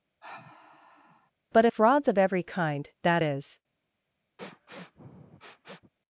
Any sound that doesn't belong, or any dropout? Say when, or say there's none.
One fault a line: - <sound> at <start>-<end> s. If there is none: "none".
- sigh at 0.2-1.3 s
- sniff at 4.4-5.9 s